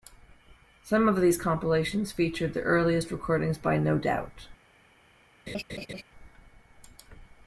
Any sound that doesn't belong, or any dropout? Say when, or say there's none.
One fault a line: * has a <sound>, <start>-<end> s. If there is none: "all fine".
* has a laugh, 5.5-6.0 s